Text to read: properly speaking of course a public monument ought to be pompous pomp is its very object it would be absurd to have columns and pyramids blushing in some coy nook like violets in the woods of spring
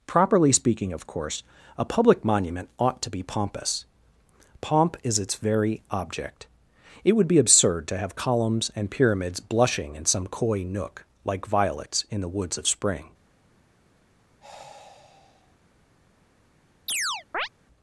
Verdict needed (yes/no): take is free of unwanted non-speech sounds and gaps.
no